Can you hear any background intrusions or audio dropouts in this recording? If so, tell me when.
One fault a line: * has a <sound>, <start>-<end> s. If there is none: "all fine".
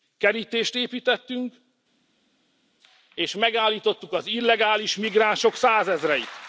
all fine